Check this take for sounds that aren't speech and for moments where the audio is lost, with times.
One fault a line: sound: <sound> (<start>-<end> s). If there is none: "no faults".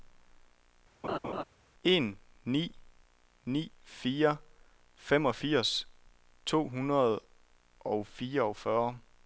sound: laugh (1.0-1.4 s)